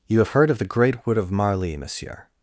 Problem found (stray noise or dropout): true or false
false